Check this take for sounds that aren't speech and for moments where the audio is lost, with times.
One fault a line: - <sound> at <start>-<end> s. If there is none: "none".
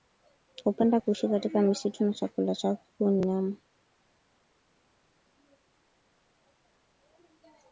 none